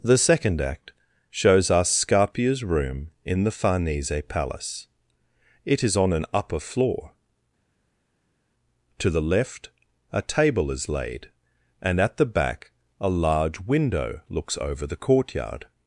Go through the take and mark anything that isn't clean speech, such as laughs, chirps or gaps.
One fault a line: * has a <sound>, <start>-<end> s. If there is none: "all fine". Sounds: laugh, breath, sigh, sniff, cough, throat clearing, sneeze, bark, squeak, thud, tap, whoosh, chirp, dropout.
all fine